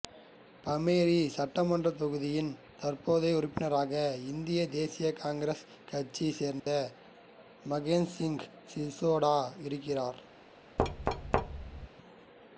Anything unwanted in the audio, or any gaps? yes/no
yes